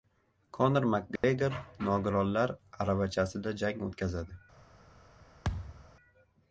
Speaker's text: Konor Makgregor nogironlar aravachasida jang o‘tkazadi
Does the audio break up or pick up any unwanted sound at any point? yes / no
yes